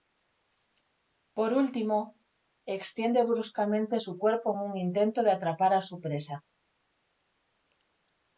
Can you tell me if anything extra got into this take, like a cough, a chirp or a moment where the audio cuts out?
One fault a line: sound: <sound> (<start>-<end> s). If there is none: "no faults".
no faults